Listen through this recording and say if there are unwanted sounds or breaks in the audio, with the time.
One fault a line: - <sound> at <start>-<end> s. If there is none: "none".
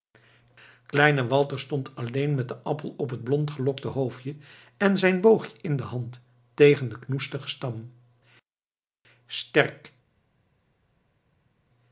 none